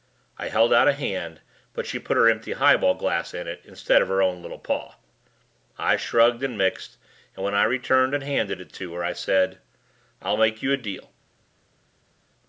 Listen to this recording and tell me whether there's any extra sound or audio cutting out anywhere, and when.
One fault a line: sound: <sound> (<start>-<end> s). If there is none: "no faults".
no faults